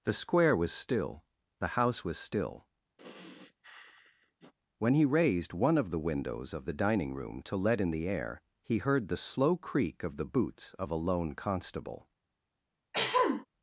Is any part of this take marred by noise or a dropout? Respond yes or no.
yes